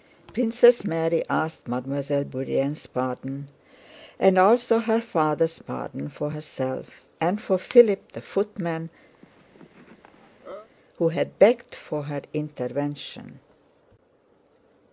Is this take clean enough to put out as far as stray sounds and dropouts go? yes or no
no